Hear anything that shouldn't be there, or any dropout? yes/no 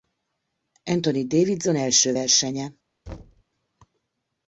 yes